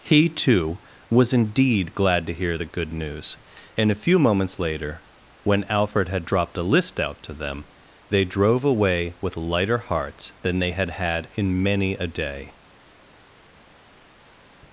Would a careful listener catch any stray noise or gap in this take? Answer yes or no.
no